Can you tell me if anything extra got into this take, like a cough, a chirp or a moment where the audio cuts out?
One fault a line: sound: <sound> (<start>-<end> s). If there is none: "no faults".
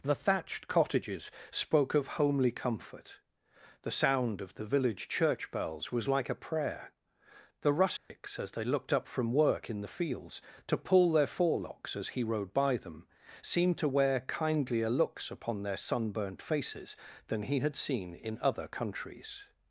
sound: dropout (8.0-8.1 s)